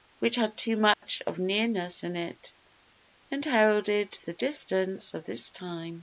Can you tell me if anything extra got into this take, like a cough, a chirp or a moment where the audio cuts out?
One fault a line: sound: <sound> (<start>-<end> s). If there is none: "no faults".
sound: dropout (0.9-1.0 s)